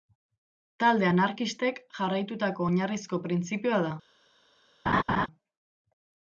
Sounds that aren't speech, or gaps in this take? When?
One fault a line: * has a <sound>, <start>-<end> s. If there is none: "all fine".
* has a laugh, 4.9-5.3 s